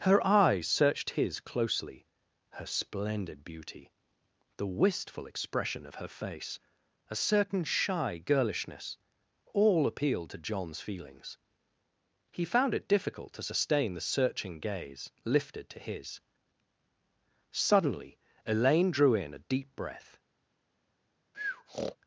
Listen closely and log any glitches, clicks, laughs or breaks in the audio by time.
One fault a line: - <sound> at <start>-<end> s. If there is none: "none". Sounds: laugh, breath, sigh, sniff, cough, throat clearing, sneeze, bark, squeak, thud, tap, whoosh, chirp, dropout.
- breath at 21.3-22.0 s